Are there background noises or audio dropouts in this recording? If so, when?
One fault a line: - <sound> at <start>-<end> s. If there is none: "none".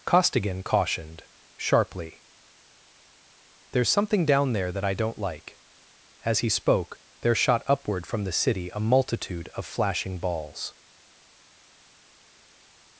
none